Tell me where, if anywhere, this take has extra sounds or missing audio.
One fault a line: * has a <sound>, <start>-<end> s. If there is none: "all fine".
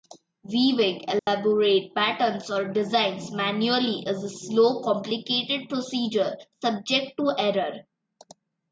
* has a dropout, 1.2-1.3 s